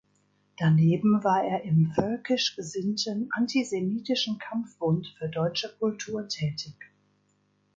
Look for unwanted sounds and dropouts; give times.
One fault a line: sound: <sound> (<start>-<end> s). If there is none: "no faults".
no faults